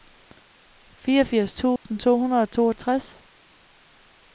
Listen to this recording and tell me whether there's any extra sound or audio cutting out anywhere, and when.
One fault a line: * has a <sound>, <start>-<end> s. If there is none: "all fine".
* has a dropout, 1.8-1.9 s